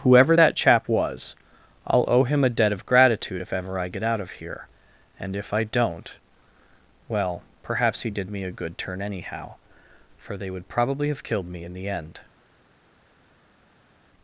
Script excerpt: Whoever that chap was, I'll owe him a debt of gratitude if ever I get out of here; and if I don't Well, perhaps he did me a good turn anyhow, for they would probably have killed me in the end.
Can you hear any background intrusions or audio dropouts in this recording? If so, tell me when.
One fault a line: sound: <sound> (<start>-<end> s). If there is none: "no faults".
no faults